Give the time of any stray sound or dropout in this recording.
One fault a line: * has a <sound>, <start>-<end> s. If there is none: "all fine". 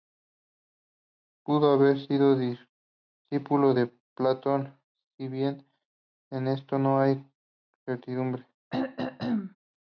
* has a throat clearing, 8.7-9.6 s